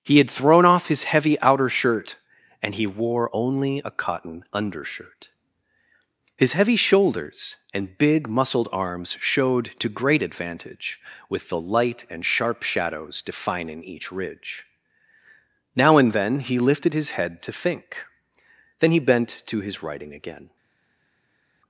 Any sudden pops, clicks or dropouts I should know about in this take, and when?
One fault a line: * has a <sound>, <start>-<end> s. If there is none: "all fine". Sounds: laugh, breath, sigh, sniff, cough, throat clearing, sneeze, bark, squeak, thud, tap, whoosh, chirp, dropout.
all fine